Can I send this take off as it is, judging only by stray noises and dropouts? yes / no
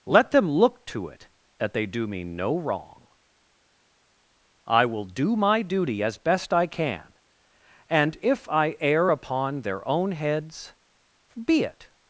yes